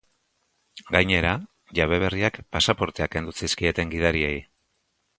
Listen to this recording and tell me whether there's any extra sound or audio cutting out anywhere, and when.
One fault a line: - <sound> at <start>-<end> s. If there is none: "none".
none